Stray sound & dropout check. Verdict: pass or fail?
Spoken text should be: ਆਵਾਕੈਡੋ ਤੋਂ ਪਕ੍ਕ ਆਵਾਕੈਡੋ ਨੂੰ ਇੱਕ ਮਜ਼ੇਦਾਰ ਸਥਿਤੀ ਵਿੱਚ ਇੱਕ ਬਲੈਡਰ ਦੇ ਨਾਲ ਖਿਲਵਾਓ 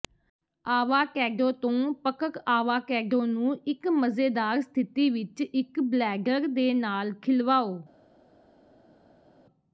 pass